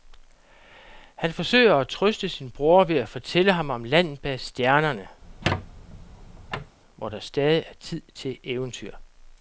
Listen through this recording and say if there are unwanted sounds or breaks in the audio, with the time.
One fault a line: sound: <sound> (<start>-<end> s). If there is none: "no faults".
sound: squeak (5.2-6.8 s)